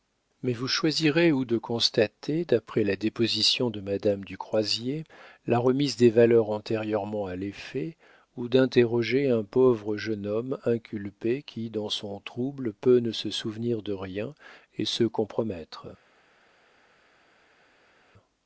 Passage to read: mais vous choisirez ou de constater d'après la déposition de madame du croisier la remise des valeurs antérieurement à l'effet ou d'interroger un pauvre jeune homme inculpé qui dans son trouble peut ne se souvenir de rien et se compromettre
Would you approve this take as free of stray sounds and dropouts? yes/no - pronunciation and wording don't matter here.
yes